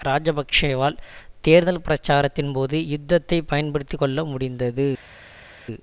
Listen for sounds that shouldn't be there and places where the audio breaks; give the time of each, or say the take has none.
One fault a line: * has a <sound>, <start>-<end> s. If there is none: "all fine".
all fine